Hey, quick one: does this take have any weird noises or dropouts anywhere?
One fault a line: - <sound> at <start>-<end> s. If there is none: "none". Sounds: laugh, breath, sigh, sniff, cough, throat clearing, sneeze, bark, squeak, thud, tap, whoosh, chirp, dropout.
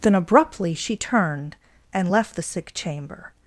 none